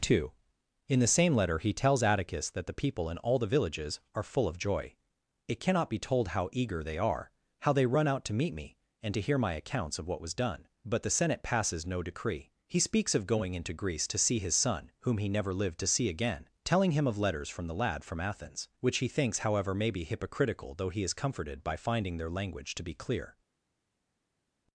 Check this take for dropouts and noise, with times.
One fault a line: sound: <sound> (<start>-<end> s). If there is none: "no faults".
no faults